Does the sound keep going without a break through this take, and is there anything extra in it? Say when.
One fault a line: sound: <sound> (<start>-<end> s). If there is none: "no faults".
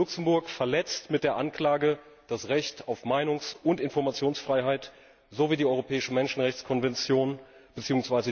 no faults